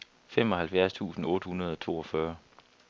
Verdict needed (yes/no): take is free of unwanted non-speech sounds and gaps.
yes